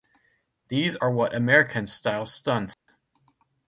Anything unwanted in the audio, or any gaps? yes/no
yes